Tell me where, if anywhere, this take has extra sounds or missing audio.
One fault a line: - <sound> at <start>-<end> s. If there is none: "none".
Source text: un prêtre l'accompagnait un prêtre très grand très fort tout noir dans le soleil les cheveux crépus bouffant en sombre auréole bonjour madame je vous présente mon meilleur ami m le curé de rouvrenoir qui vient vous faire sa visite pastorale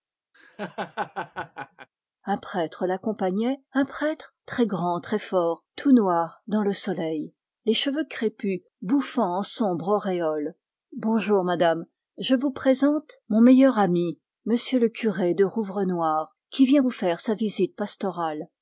- laugh at 0.3-1.9 s